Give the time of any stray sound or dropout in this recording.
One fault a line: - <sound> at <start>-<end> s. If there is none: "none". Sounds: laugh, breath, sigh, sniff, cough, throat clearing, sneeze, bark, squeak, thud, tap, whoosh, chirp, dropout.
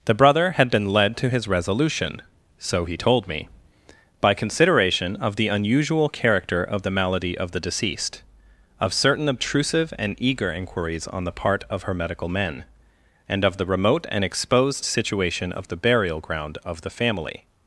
none